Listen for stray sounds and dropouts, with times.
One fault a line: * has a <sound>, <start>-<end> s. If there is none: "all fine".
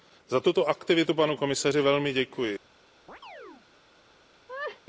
* has a chirp, 3.1-3.7 s
* has a laugh, 4.5-4.8 s